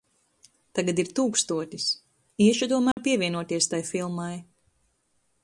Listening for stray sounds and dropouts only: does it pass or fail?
fail